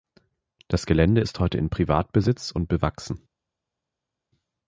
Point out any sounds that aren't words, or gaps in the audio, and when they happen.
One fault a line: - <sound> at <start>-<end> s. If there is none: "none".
none